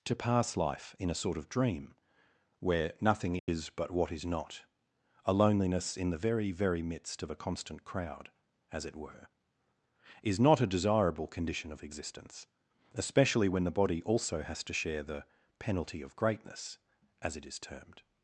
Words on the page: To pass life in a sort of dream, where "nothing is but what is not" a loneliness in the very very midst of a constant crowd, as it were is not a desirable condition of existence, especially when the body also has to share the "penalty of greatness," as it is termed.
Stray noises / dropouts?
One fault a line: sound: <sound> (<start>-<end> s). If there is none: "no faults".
sound: dropout (3.4-3.5 s)